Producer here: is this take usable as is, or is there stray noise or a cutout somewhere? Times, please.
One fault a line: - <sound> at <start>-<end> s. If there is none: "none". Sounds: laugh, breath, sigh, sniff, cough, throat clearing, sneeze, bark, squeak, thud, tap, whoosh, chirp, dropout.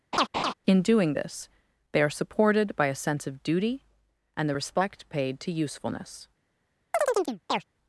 - laugh at 0.1-0.5 s
- chirp at 6.9-7.6 s